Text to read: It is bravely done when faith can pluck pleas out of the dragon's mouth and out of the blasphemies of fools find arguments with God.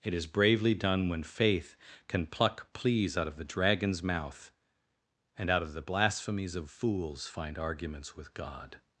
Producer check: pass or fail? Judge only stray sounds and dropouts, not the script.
pass